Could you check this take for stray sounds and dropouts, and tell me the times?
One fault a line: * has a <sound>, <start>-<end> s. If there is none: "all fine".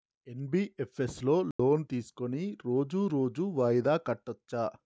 * has a dropout, 1.5-1.6 s